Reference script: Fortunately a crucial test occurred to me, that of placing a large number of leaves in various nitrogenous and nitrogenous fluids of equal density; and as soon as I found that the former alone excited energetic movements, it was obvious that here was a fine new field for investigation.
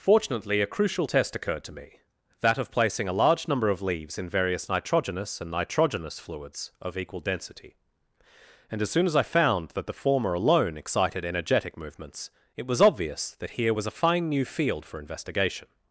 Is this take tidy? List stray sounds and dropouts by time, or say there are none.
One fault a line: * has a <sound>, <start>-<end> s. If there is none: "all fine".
all fine